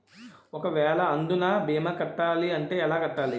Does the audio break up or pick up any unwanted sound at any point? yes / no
no